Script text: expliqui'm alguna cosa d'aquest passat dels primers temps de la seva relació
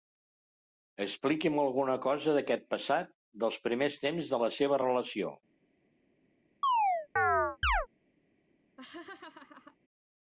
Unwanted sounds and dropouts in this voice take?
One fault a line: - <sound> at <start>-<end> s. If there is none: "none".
- chirp at 6.6-7.9 s
- laugh at 8.8-9.8 s